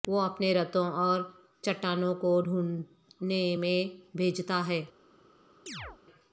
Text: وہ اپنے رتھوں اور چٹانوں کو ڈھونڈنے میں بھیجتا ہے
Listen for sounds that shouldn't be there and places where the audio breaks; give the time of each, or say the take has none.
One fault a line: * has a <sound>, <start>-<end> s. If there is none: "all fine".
* has a chirp, 5.7-6.0 s